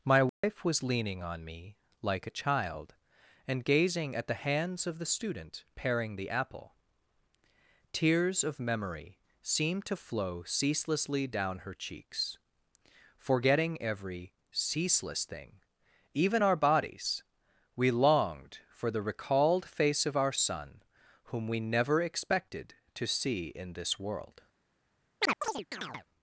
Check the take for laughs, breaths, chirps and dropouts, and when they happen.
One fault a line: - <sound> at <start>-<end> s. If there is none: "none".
- dropout at 0.3-0.4 s
- chirp at 25.2-26.1 s